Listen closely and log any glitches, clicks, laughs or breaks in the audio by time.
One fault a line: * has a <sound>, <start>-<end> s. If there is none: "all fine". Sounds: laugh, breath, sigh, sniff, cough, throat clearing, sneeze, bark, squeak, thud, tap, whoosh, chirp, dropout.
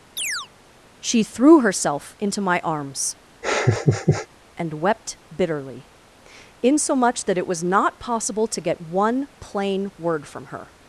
* has a chirp, 0.2-0.5 s
* has a laugh, 3.4-4.3 s